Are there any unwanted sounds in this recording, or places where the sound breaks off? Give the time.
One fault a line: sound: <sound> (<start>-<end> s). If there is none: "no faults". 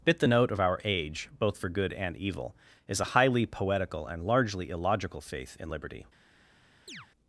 sound: chirp (6.9-7.1 s)